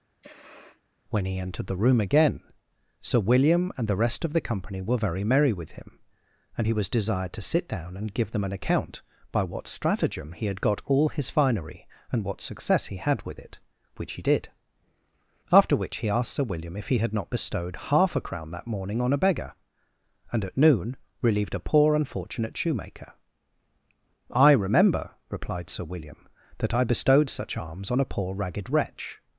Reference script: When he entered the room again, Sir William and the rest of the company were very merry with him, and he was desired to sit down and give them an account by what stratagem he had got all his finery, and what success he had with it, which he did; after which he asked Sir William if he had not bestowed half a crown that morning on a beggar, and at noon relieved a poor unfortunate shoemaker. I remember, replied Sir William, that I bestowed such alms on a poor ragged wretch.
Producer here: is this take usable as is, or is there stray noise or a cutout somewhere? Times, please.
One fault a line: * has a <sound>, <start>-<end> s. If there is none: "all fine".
* has a sniff, 0.2-0.8 s